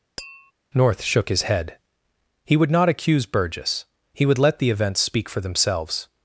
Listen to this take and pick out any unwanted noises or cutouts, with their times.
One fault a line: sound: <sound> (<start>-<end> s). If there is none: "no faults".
sound: tap (0.2-0.5 s)